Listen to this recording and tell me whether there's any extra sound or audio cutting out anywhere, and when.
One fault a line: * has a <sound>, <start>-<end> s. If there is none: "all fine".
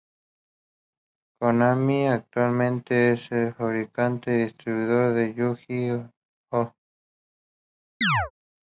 * has a chirp, 8.0-8.3 s